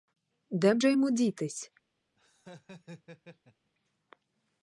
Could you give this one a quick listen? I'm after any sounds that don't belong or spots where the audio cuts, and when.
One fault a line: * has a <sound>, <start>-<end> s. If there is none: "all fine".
* has a laugh, 2.2-3.7 s